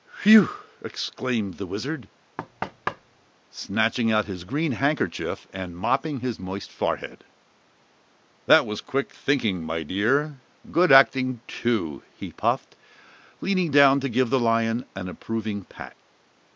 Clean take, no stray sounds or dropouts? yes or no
no